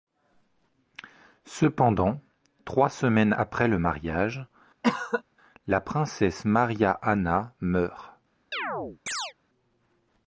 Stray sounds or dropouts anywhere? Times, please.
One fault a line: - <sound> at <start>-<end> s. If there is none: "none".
- cough at 4.8-5.2 s
- chirp at 8.5-9.3 s